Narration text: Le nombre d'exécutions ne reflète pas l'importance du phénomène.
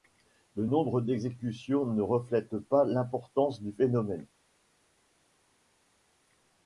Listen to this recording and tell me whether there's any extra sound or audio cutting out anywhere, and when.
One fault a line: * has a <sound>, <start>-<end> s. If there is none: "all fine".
all fine